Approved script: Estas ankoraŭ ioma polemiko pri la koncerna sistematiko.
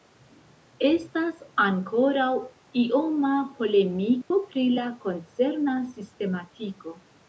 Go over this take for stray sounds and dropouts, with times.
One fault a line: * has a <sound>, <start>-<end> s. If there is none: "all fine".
* has a dropout, 4.2-4.3 s